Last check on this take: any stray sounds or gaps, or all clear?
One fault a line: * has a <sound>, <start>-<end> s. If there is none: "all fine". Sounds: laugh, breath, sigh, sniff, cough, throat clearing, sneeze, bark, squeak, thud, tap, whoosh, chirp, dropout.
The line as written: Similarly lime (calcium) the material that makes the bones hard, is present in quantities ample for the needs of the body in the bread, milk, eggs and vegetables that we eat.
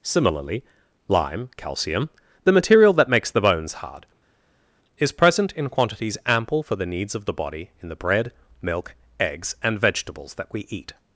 all fine